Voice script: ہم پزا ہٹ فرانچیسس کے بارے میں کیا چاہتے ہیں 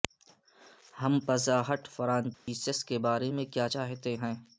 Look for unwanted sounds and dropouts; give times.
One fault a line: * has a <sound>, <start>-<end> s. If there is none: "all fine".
* has a dropout, 2.3-2.5 s